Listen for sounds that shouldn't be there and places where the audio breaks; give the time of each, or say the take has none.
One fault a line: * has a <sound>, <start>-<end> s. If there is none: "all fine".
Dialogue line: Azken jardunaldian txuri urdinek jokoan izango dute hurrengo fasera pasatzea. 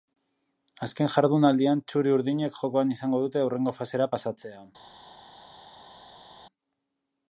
all fine